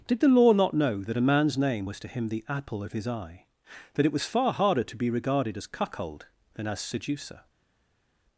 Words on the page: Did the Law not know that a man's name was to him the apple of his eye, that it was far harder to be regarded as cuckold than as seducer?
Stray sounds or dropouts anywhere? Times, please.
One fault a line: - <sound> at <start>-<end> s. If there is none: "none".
none